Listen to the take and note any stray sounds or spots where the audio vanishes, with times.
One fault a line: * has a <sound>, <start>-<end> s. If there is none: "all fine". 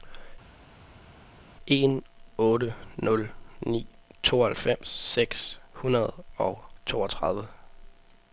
all fine